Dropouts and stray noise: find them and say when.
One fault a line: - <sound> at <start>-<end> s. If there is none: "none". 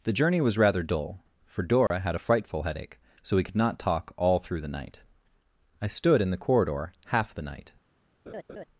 - dropout at 1.9-1.9 s
- laugh at 8.3-8.7 s